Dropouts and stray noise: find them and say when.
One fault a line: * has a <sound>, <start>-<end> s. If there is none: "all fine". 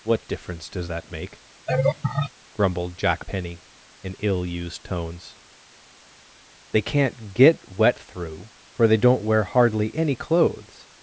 * has a laugh, 1.7-2.3 s